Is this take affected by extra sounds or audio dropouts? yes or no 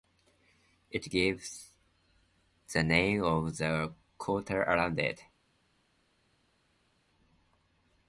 no